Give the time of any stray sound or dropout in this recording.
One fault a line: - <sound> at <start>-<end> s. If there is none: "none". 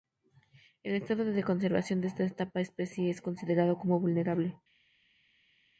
none